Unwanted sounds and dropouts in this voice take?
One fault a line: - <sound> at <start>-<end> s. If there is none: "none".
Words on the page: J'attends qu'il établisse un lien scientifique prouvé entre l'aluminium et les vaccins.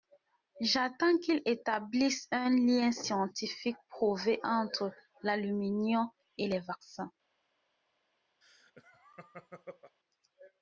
- laugh at 8.4-10.0 s